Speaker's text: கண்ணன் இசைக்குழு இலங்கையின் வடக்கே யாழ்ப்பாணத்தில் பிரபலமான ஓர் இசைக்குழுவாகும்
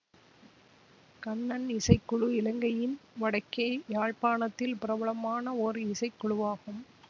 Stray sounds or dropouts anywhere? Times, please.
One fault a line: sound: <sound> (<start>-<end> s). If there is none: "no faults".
no faults